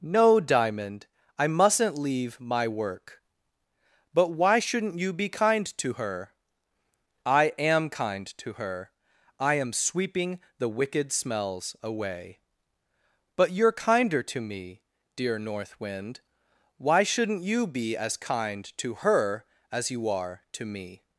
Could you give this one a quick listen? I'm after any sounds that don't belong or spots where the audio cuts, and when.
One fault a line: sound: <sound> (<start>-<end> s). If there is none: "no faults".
no faults